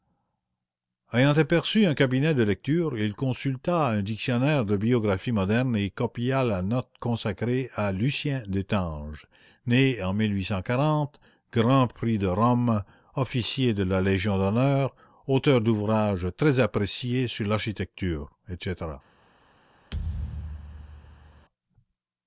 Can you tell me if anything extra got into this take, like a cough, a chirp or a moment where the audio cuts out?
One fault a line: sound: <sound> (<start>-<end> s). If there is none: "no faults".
sound: thud (19.9-21.5 s)